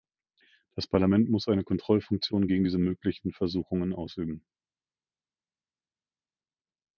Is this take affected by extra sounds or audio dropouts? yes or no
no